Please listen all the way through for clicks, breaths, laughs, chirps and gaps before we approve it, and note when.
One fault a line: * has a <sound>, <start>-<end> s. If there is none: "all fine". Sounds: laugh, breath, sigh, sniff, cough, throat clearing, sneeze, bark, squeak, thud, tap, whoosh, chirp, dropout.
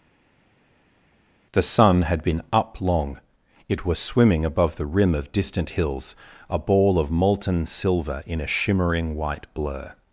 all fine